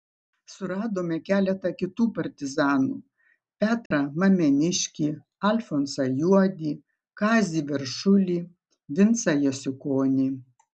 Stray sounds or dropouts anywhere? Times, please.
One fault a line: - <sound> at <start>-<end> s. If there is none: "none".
- dropout at 3.9-3.9 s